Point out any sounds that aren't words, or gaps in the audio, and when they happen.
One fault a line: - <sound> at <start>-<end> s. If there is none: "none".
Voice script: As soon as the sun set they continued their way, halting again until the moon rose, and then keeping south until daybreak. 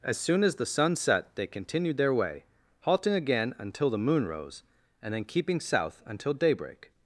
none